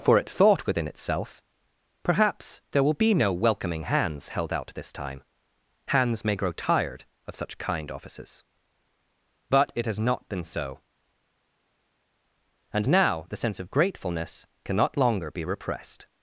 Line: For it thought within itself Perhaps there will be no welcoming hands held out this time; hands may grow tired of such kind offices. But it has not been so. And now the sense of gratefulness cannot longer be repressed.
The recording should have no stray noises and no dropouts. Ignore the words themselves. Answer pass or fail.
pass